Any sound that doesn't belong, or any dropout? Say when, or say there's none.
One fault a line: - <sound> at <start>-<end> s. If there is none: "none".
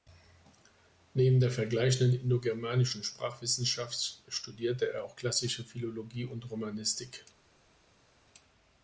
none